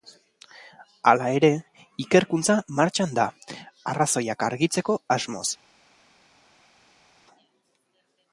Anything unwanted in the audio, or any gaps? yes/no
no